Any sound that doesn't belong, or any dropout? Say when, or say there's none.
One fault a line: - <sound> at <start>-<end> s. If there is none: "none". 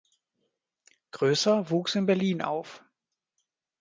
none